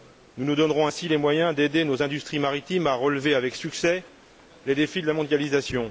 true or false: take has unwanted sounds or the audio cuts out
false